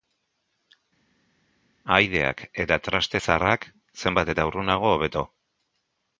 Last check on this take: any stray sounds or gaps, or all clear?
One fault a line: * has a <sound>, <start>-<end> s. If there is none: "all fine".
all fine